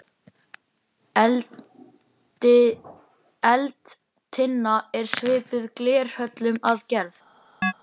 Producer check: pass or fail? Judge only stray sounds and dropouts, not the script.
fail